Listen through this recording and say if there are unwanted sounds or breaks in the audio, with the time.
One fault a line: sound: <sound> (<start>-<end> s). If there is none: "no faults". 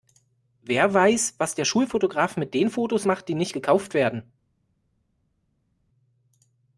no faults